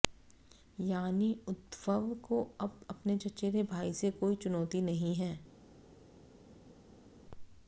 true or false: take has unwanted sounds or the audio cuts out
false